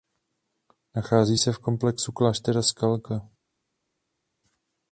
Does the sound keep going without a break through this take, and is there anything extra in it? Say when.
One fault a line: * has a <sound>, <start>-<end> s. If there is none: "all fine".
all fine